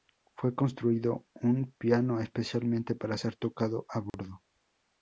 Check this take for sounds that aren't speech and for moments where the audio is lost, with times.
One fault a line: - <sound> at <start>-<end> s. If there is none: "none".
- dropout at 4.1-4.1 s